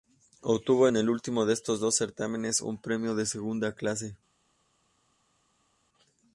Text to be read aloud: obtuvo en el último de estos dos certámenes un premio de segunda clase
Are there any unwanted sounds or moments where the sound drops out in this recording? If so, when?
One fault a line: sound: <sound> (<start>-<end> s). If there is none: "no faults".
no faults